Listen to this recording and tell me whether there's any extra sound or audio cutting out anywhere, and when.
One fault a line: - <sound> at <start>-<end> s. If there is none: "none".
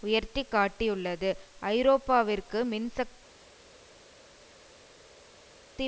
none